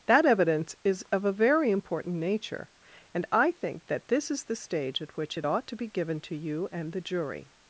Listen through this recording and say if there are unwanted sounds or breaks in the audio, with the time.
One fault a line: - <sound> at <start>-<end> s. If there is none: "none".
none